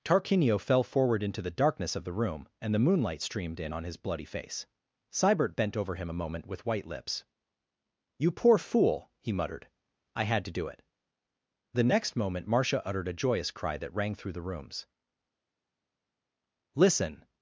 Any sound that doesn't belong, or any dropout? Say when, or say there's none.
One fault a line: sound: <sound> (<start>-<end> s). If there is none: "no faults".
no faults